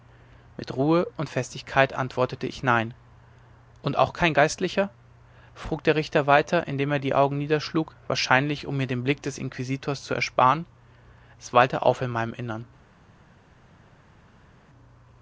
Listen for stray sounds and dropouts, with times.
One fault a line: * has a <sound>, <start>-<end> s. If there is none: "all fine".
all fine